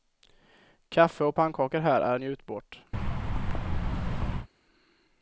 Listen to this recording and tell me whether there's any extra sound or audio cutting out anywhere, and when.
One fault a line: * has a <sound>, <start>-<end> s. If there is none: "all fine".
* has a thud, 2.9-4.5 s